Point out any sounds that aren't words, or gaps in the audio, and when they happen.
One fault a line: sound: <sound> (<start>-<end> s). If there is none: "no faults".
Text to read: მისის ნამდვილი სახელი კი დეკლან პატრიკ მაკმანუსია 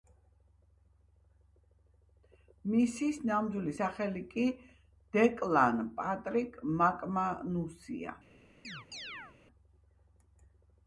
sound: chirp (8.6-9.4 s)